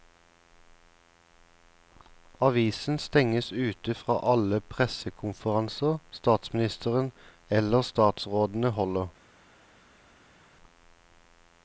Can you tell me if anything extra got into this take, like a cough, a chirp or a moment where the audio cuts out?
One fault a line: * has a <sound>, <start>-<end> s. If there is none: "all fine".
all fine